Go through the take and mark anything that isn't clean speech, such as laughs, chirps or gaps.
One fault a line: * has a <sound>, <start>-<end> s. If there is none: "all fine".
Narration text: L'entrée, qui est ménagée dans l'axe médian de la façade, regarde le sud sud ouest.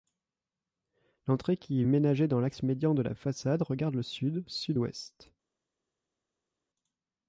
all fine